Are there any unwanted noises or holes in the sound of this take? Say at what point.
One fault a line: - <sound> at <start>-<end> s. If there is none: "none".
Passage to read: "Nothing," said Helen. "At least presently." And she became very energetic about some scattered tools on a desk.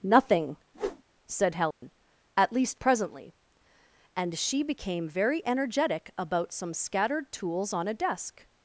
- whoosh at 0.7-1.0 s
- dropout at 1.7-1.8 s